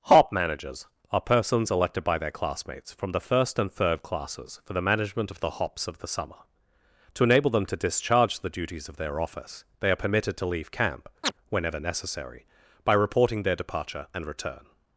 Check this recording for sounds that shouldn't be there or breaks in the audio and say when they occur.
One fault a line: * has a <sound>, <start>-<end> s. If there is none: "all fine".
* has a chirp, 11.2-11.3 s